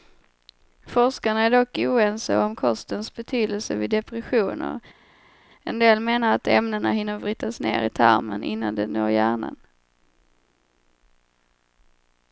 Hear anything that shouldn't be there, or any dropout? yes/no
no